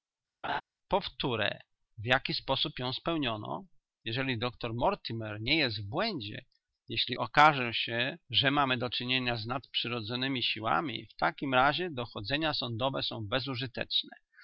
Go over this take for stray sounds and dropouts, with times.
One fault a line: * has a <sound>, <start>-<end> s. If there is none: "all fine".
* has a laugh, 0.4-0.6 s